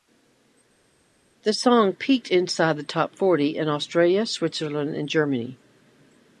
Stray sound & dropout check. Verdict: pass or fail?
pass